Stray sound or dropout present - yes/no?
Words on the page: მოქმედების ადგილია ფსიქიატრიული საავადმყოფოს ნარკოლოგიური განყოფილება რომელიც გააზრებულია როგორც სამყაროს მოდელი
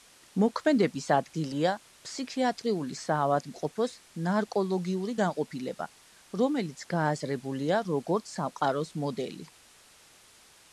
no